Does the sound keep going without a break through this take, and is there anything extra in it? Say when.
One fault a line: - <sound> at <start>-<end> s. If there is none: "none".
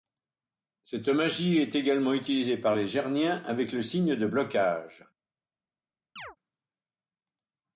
- chirp at 6.2-6.4 s